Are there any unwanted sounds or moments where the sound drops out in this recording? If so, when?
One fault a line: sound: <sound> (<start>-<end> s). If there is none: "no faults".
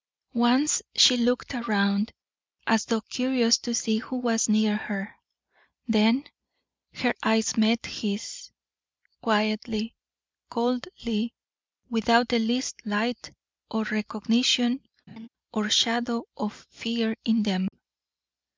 sound: laugh (15.1-15.3 s)
sound: dropout (17.7-17.7 s)